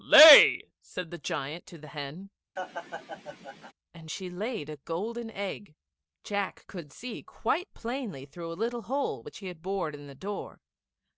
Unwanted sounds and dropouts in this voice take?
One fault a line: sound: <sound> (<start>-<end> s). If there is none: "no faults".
sound: laugh (2.6-3.7 s)